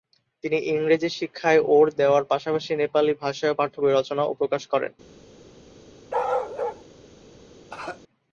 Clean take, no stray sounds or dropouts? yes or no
no